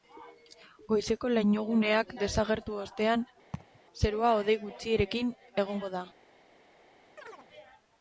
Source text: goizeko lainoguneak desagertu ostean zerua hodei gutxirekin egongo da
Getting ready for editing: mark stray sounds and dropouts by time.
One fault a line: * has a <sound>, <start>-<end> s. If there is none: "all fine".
* has a laugh, 3.5-3.8 s
* has a chirp, 7.2-7.5 s